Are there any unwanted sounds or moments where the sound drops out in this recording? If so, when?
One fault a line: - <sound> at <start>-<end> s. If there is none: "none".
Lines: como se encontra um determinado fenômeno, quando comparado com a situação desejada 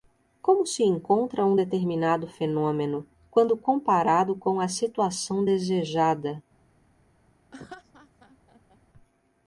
- laugh at 7.5-8.8 s